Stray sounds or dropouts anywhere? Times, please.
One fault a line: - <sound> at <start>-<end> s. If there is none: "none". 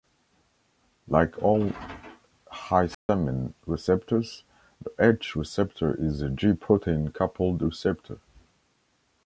- dropout at 2.9-3.1 s